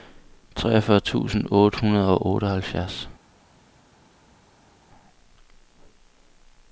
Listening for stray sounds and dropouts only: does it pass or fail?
pass